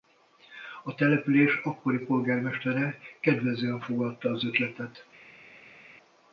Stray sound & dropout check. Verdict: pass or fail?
pass